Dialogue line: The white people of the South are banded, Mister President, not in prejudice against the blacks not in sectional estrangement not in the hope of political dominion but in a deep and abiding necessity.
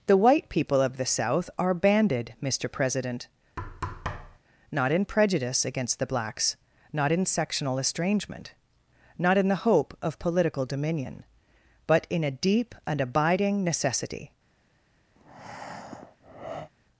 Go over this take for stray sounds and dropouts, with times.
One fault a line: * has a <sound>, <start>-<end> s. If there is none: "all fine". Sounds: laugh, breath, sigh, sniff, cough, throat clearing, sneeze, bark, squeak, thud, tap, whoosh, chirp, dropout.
* has a thud, 3.6-4.4 s
* has a breath, 15.2-16.7 s